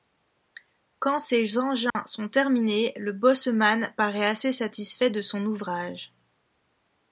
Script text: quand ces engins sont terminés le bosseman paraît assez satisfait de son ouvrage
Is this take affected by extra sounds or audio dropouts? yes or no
yes